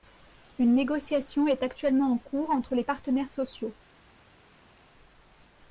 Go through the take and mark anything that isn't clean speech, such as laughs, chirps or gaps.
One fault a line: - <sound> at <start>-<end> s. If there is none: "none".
none